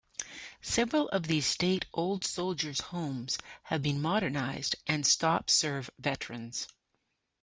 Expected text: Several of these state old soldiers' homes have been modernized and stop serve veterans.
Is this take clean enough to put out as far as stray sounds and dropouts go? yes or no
yes